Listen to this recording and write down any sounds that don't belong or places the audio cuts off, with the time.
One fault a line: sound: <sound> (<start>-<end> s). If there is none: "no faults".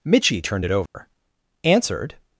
sound: dropout (0.9-1.0 s)